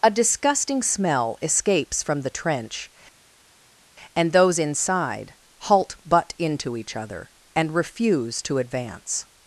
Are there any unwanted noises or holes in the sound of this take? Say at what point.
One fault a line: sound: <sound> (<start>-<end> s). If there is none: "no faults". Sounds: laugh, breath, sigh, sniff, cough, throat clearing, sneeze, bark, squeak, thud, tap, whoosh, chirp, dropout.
no faults